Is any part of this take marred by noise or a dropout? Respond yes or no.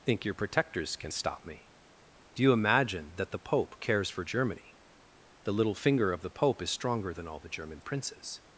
no